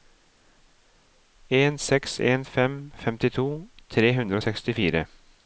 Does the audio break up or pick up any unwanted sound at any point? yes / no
no